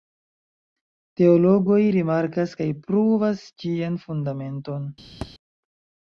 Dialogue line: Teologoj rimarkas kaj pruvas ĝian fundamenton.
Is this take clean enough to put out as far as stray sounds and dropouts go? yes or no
no